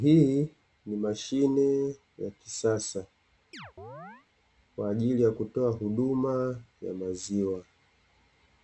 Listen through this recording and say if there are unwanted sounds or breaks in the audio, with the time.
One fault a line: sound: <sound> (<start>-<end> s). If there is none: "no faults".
sound: chirp (3.5-4.3 s)